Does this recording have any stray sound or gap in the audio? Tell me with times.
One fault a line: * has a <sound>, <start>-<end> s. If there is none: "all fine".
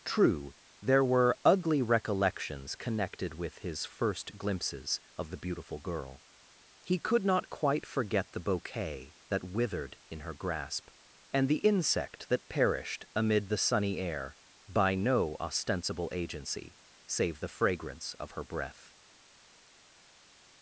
all fine